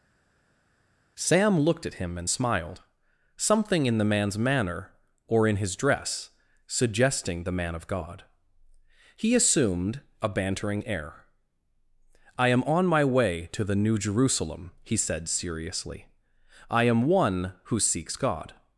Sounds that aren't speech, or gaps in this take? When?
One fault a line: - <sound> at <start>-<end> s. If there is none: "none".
none